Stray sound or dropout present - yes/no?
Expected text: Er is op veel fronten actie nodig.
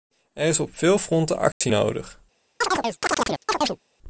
yes